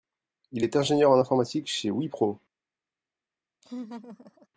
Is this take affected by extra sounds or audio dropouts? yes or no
yes